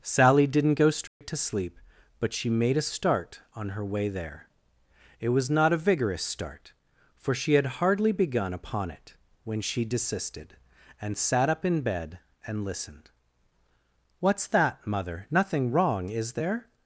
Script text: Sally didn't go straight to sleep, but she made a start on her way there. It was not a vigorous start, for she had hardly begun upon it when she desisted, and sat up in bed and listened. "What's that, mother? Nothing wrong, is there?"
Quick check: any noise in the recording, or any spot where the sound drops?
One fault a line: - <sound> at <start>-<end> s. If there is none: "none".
- dropout at 1.1-1.2 s